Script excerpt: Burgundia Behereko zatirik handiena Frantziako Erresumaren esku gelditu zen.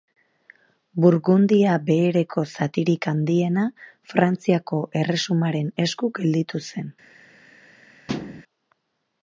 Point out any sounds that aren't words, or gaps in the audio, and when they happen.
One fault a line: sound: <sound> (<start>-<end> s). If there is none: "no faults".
sound: thud (8.1-8.4 s)